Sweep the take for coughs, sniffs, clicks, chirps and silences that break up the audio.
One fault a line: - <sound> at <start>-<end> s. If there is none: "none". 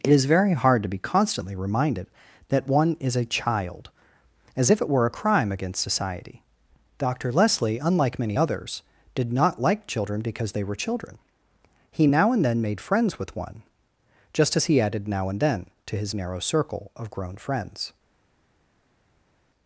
none